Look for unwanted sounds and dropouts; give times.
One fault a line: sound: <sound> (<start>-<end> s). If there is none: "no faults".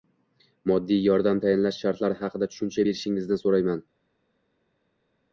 no faults